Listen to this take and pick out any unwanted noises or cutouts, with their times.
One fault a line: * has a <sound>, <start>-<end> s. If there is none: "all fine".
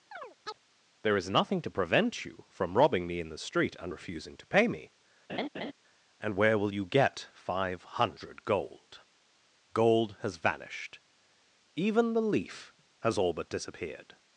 * has a chirp, 0.1-0.6 s
* has a laugh, 5.3-5.7 s